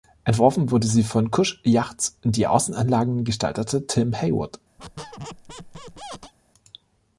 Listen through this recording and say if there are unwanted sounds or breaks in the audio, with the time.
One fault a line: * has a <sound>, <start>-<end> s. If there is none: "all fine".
* has a squeak, 4.8-6.3 s